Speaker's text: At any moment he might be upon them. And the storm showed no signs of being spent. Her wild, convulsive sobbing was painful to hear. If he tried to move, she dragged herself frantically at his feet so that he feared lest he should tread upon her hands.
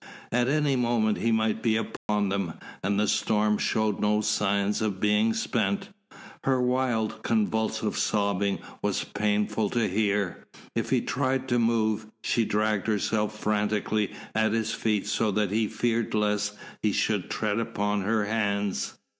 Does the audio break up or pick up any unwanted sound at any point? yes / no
yes